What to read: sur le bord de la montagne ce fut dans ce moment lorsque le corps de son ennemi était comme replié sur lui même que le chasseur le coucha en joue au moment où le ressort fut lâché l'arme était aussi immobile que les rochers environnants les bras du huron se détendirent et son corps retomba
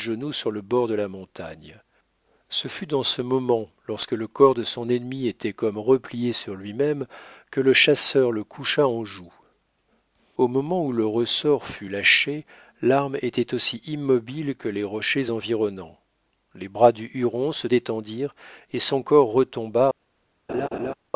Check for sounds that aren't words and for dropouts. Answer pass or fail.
fail